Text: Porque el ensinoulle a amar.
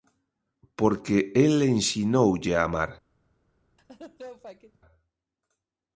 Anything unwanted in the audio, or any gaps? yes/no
yes